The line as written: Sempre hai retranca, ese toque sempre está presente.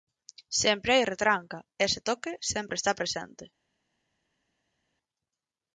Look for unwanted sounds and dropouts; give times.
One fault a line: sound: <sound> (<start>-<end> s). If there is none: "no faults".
no faults